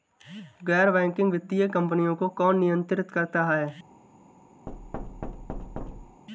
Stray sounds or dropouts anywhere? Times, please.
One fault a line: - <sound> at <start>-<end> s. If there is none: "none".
- thud at 4.7-6.2 s